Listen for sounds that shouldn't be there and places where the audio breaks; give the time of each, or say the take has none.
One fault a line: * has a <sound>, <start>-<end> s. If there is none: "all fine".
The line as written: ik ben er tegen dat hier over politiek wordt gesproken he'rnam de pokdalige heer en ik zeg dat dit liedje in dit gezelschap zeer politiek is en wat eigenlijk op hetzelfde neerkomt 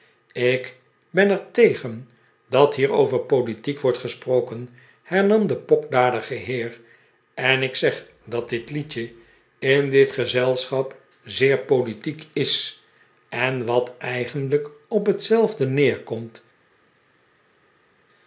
all fine